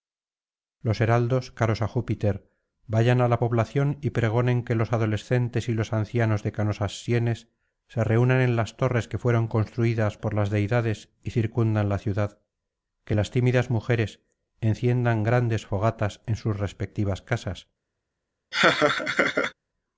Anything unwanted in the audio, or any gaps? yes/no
yes